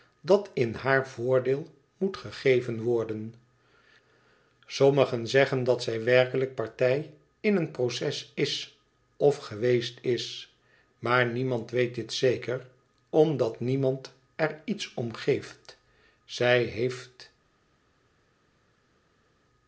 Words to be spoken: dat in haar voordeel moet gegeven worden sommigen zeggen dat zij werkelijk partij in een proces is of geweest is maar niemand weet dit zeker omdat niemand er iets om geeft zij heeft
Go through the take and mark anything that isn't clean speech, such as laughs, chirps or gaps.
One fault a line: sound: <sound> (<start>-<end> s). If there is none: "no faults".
no faults